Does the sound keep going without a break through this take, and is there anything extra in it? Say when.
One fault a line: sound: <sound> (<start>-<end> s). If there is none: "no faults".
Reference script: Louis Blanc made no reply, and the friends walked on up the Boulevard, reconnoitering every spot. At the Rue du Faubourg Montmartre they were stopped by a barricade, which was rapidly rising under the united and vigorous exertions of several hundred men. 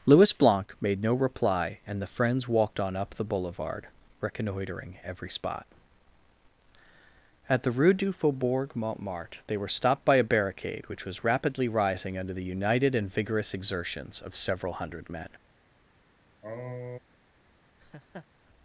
sound: sniff (16.4-17.0 s)
sound: laugh (17.8-18.3 s)